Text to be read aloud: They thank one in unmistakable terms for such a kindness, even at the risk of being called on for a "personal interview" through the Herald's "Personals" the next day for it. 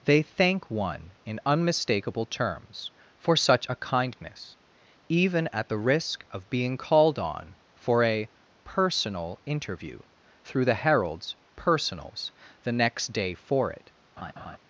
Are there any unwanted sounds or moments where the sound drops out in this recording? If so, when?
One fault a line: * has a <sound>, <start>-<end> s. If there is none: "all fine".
* has a laugh, 14.2-14.6 s